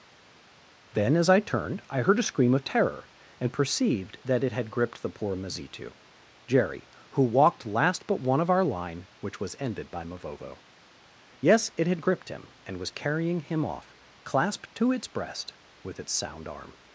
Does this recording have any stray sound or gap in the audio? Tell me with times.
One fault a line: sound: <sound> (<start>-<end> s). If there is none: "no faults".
no faults